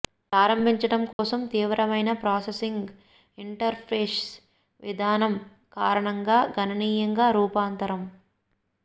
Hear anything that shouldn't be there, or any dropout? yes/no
yes